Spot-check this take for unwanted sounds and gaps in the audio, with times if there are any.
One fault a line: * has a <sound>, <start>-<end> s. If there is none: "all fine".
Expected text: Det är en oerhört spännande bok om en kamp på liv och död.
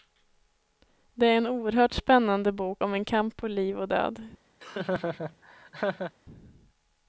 * has a laugh, 4.6-6.1 s